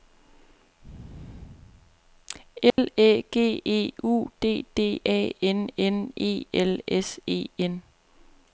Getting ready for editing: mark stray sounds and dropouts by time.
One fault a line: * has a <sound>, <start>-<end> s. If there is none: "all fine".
* has a dropout, 2.7-2.8 s